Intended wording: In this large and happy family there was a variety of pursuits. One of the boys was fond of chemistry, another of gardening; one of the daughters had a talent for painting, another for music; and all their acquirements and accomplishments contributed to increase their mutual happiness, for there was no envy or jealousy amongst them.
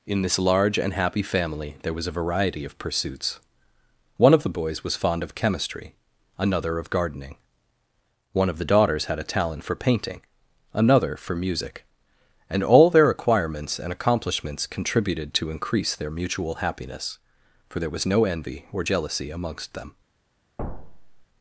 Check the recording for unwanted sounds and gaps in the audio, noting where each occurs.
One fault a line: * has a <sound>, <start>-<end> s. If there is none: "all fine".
* has a thud, 20.6-21.3 s